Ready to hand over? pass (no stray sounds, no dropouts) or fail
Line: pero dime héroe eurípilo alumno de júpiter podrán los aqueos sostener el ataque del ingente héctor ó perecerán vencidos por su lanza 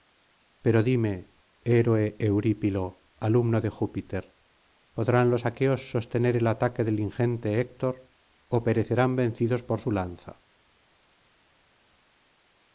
pass